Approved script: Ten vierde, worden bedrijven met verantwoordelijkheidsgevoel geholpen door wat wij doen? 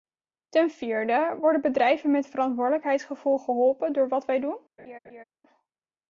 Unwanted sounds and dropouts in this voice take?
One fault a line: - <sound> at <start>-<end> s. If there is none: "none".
- laugh at 4.8-5.2 s